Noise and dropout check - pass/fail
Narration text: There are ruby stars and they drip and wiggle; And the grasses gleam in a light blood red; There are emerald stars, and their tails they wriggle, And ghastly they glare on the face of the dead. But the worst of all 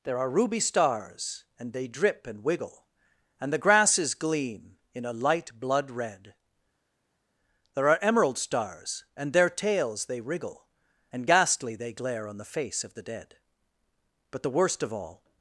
pass